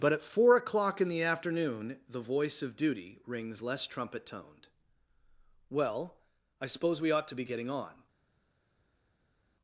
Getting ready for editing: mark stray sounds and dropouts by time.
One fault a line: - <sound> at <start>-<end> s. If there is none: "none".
none